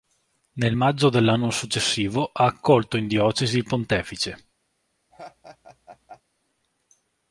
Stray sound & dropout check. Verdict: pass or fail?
fail